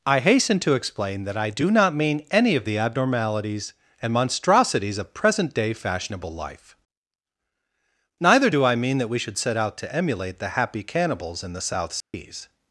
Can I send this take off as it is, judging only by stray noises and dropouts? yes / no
no